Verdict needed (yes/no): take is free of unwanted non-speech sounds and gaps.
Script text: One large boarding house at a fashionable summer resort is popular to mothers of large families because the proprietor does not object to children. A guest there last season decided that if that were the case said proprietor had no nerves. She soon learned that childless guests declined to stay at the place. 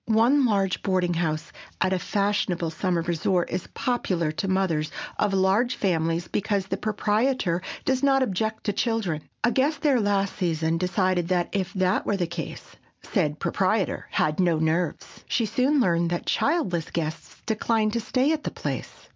yes